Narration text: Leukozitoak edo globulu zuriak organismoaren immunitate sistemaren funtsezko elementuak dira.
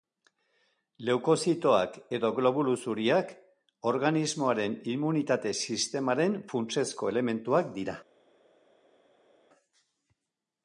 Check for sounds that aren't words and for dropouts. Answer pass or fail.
pass